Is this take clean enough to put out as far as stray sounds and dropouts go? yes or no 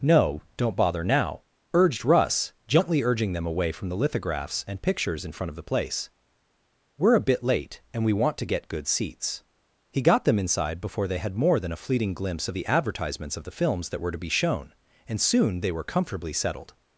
yes